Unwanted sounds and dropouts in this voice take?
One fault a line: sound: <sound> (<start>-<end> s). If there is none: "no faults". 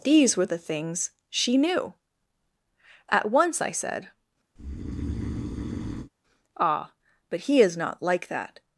sound: breath (4.6-6.1 s)